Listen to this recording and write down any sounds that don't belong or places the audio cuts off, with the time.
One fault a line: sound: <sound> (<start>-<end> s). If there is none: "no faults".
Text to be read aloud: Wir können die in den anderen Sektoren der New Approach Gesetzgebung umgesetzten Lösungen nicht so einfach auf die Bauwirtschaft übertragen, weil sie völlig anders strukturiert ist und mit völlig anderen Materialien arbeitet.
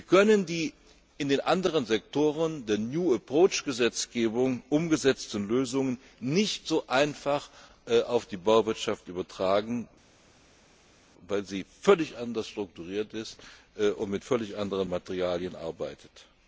no faults